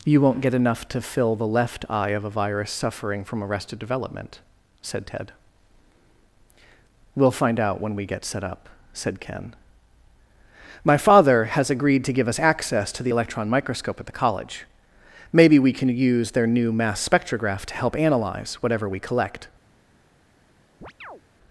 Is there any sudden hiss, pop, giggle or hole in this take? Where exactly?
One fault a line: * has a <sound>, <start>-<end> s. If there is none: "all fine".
* has a chirp, 20.8-21.2 s